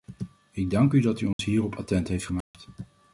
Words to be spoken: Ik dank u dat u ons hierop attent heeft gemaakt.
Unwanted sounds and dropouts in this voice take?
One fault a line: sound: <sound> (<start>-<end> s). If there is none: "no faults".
sound: dropout (1.3-1.4 s)
sound: dropout (2.4-2.5 s)